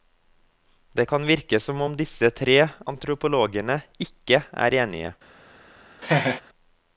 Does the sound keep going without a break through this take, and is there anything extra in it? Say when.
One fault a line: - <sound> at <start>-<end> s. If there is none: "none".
- laugh at 6.0-6.4 s